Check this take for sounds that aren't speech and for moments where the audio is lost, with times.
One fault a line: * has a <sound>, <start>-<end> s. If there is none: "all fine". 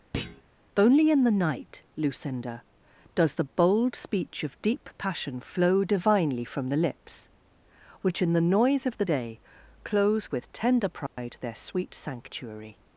* has a thud, 0.1-0.4 s
* has a dropout, 11.1-11.2 s